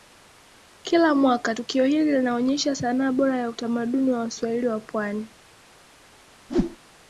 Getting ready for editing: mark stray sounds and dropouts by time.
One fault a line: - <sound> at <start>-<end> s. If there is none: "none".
- whoosh at 6.5-6.8 s